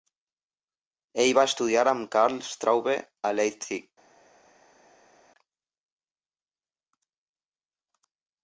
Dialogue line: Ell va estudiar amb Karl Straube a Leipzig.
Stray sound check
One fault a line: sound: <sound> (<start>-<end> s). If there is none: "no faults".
no faults